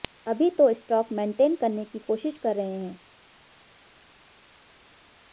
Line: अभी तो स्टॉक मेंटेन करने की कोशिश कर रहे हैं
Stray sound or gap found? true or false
false